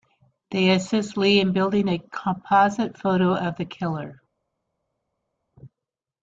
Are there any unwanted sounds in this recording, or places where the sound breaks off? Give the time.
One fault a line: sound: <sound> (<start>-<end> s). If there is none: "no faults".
no faults